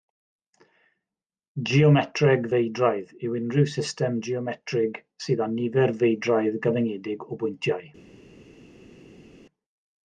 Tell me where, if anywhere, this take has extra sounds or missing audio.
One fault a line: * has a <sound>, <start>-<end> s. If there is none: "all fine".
all fine